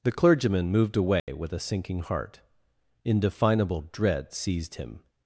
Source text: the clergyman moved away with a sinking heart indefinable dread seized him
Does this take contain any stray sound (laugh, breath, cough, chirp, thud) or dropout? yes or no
yes